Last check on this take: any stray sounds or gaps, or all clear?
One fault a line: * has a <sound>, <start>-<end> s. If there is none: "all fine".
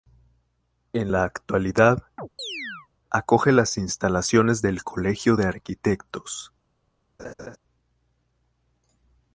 * has a chirp, 2.2-2.9 s
* has a laugh, 7.2-7.6 s